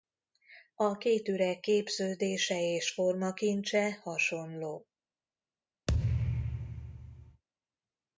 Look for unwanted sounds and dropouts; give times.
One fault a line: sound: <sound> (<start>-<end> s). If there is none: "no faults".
sound: thud (5.9-7.4 s)